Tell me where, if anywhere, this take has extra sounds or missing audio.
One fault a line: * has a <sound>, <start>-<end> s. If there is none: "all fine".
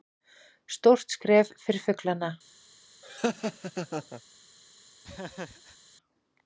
* has a laugh, 3.0-4.2 s
* has a laugh, 5.0-5.8 s